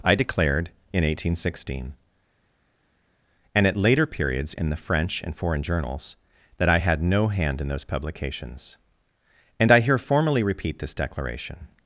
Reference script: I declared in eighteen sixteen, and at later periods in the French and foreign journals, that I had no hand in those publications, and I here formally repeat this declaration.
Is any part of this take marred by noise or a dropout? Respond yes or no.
no